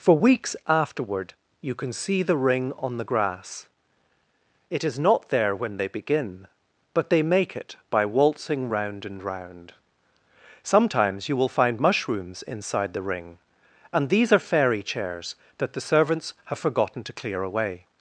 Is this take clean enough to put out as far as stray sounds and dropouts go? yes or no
yes